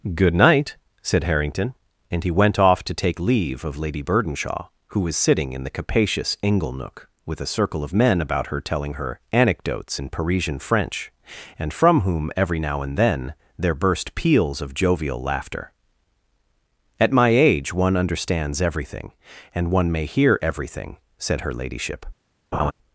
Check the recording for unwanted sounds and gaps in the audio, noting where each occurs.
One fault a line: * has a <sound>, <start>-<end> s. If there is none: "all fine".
* has a laugh, 22.5-22.7 s